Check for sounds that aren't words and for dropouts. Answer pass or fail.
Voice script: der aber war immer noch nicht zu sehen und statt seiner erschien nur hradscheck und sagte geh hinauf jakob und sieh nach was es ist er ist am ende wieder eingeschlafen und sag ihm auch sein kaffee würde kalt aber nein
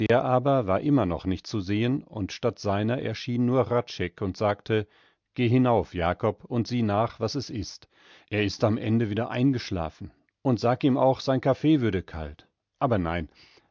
fail